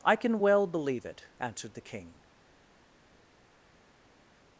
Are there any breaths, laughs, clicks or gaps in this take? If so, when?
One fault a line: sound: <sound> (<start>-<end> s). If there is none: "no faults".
no faults